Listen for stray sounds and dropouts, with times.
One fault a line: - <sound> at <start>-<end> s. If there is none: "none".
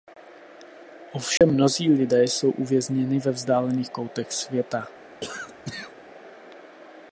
- dropout at 1.4-1.4 s
- cough at 5.2-5.9 s